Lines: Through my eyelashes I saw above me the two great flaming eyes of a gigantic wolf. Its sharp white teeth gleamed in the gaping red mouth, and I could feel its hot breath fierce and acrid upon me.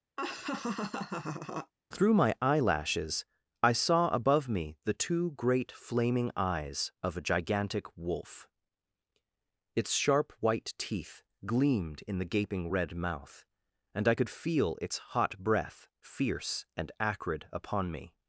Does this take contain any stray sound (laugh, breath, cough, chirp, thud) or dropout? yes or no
yes